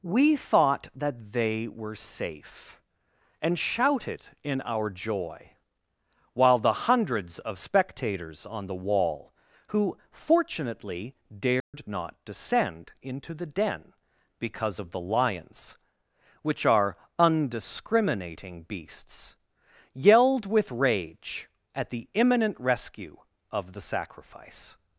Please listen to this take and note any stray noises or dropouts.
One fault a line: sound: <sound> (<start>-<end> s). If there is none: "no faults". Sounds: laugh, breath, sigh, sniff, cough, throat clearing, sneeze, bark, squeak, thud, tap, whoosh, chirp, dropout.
sound: dropout (11.6-11.7 s)